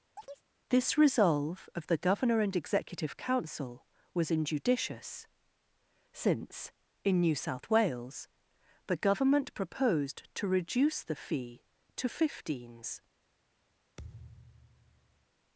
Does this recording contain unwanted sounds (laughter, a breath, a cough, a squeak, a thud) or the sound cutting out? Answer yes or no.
yes